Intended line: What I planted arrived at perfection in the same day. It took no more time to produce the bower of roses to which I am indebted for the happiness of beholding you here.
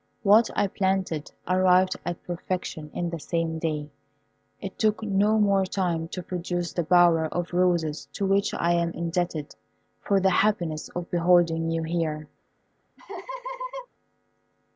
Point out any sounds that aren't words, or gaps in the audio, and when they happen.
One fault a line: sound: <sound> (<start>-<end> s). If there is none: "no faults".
sound: laugh (13.0-13.9 s)